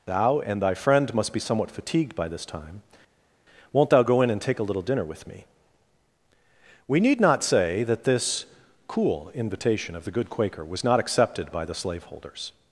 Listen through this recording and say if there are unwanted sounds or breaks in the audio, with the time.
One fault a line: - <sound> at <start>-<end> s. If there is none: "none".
none